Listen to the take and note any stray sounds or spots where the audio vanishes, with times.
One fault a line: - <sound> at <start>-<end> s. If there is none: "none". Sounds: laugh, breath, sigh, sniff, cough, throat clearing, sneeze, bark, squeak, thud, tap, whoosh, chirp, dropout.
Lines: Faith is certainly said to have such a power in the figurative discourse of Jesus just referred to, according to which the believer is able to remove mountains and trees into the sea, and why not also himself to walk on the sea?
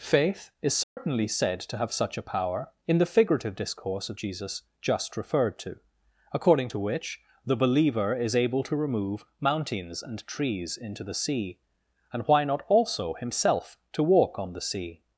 - dropout at 0.8-1.0 s